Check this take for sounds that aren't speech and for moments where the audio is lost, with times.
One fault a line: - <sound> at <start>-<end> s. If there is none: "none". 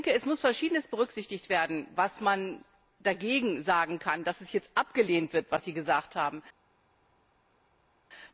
none